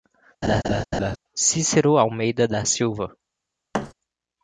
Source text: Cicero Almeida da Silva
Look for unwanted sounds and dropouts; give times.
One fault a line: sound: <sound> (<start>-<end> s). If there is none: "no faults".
sound: laugh (0.4-1.2 s)
sound: thud (3.7-3.9 s)